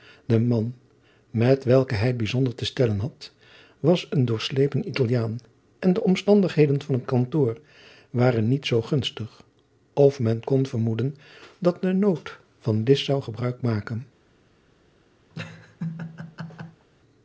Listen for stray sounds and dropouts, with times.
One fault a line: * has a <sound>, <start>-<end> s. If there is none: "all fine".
* has a laugh, 15.3-16.9 s